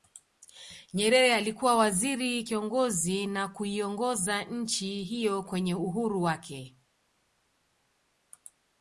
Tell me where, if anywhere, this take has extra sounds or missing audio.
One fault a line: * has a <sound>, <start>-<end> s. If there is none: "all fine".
all fine